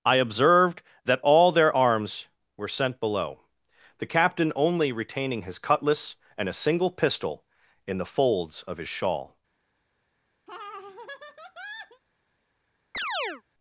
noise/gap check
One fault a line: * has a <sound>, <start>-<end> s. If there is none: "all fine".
* has a laugh, 10.5-12.0 s
* has a chirp, 12.9-13.4 s